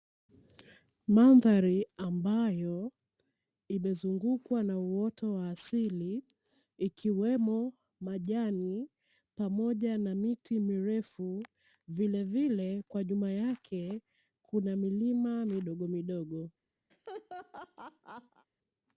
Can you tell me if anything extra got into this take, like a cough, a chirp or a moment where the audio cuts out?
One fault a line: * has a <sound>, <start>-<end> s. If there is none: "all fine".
* has a laugh, 16.9-18.5 s